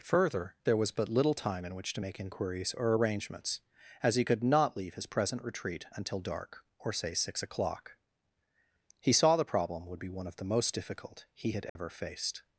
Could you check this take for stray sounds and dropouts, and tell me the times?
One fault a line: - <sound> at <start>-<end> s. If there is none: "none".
- dropout at 11.7-11.8 s